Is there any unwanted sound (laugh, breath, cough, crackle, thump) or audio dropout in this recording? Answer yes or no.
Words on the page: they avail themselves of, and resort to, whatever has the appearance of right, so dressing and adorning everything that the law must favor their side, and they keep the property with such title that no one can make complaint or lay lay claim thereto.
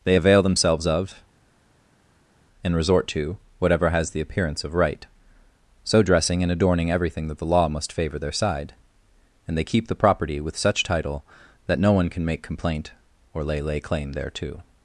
no